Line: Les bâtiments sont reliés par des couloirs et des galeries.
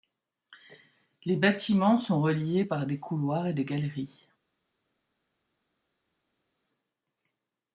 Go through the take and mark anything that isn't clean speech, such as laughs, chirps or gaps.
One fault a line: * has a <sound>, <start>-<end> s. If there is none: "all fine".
all fine